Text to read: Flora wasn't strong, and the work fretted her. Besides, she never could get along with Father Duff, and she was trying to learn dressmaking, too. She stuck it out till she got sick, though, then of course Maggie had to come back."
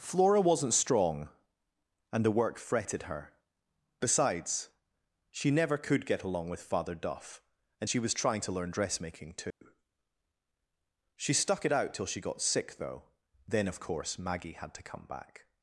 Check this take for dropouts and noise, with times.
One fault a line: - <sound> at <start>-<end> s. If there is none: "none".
- dropout at 9.5-9.6 s